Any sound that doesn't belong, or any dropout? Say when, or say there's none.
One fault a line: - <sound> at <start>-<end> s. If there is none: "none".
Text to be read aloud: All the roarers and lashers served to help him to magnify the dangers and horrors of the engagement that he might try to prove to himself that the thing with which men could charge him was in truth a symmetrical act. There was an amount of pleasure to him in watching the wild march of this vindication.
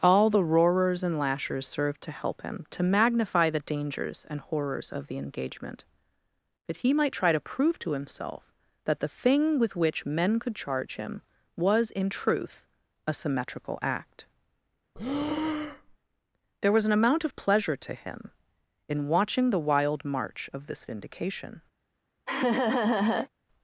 - breath at 14.9-16.0 s
- laugh at 22.3-23.3 s